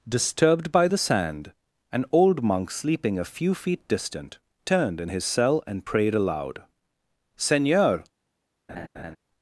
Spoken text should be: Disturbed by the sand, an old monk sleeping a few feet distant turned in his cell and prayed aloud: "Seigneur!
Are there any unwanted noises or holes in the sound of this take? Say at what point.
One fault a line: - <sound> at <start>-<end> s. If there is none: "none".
- laugh at 8.7-9.2 s